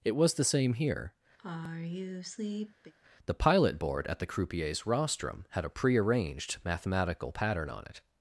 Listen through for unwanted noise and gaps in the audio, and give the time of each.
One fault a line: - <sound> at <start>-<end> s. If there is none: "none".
- sigh at 1.4-2.9 s